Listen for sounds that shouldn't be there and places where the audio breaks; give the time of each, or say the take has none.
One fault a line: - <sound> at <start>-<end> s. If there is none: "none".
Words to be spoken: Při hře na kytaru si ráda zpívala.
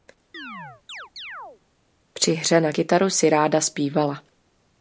- chirp at 0.3-1.6 s